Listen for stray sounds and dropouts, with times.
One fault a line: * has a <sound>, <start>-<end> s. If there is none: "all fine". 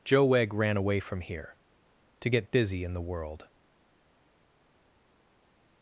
all fine